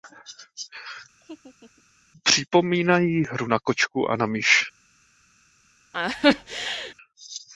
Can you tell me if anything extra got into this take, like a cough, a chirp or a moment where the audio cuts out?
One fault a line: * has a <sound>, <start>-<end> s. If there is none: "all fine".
* has a laugh, 1.2-1.8 s
* has a laugh, 5.9-6.9 s